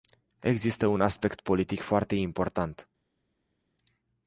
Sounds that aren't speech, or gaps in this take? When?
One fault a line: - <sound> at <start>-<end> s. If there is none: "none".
none